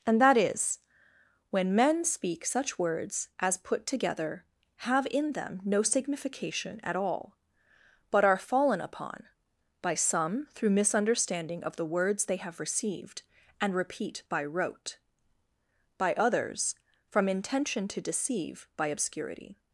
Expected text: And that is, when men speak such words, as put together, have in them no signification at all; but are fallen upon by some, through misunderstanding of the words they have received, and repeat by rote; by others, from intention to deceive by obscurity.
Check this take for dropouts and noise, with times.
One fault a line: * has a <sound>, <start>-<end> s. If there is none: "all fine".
all fine